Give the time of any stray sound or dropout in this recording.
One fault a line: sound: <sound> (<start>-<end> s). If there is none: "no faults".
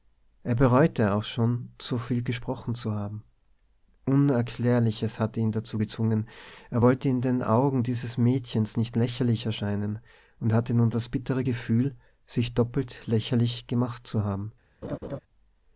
sound: laugh (14.8-15.2 s)